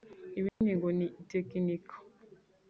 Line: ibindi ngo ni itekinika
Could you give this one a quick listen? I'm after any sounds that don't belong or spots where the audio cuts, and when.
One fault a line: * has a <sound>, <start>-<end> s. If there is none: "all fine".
* has a dropout, 0.5-0.6 s